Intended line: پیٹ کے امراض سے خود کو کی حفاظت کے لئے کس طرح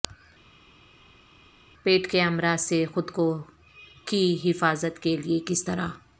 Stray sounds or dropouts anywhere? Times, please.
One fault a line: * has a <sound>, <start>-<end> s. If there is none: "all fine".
all fine